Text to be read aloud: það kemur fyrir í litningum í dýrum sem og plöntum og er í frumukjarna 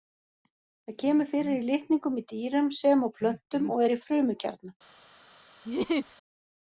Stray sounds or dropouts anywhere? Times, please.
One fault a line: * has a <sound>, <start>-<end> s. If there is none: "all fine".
* has a laugh, 5.6-6.2 s